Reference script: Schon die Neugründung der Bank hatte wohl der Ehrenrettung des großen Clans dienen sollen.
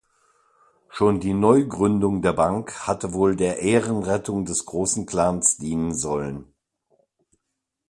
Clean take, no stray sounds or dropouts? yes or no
yes